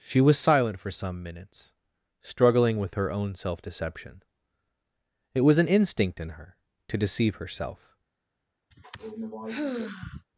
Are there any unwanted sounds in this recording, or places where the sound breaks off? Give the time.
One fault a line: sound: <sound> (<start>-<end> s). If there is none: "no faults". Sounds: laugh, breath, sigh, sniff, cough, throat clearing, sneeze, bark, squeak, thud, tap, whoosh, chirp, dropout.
sound: sigh (8.7-10.3 s)